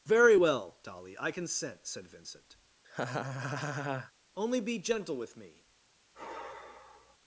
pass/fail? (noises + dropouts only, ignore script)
fail